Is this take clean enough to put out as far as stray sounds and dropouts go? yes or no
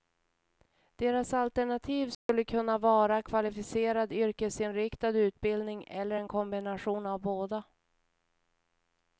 no